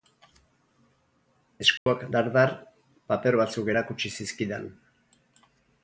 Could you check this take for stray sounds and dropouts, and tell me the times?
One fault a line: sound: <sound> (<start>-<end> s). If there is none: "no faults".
sound: dropout (1.8-1.9 s)